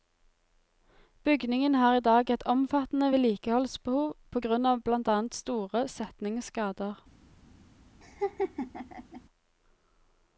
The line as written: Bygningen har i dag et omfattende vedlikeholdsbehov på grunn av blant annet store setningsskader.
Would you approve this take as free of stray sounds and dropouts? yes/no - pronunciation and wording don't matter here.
no